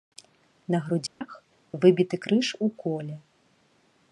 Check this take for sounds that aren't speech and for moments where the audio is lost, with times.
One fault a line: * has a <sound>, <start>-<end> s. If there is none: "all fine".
* has a dropout, 1.1-1.2 s